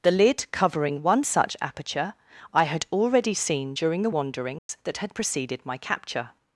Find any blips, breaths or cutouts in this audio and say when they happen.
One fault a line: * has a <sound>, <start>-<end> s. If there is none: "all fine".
* has a dropout, 4.6-4.7 s